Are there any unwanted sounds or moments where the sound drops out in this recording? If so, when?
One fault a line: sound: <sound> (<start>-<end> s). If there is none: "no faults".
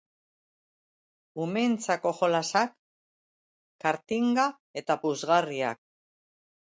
no faults